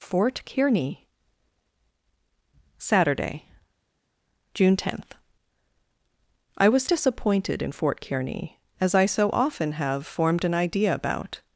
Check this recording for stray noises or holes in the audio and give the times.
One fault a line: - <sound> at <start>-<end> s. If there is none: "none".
none